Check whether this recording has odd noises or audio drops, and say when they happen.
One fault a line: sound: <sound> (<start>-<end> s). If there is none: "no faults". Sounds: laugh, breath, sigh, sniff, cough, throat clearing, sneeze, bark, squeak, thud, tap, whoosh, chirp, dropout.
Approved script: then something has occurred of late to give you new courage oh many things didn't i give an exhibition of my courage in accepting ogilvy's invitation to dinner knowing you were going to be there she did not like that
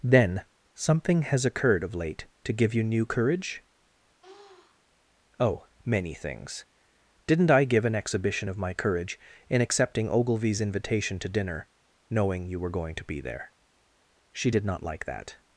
sound: sniff (4.2-4.8 s)